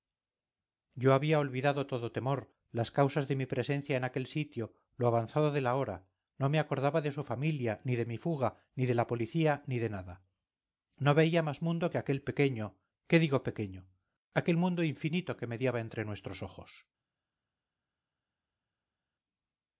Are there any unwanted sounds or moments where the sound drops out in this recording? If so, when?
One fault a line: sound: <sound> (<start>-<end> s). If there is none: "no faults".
no faults